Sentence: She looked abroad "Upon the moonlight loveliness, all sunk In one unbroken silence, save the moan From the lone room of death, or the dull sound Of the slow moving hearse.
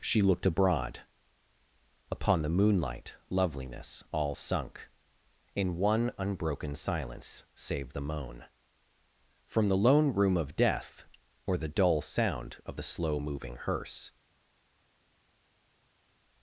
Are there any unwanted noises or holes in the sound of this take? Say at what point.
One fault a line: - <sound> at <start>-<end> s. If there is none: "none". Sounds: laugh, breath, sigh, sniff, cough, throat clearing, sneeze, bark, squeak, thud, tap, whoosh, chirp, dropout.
none